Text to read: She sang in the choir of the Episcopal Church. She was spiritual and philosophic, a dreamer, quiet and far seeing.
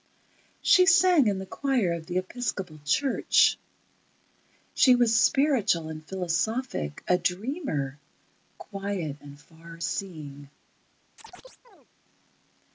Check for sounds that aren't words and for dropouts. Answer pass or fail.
fail